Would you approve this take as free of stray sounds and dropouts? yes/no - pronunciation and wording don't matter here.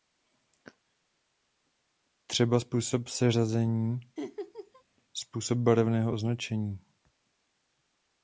no